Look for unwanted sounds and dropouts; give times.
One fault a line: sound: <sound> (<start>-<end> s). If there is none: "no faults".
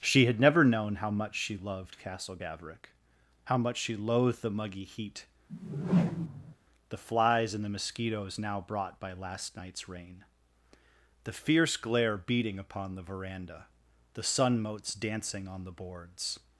sound: whoosh (5.5-6.6 s)